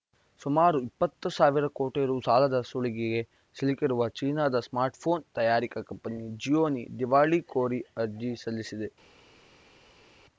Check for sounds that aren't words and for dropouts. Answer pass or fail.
pass